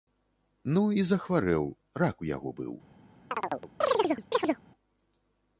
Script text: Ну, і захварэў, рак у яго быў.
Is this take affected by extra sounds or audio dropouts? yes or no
yes